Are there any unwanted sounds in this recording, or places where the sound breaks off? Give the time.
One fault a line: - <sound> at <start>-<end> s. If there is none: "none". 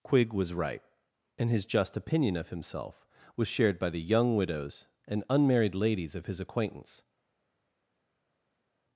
none